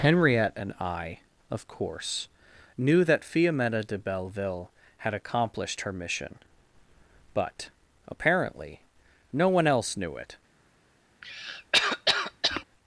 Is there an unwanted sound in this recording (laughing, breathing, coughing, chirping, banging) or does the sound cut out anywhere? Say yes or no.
yes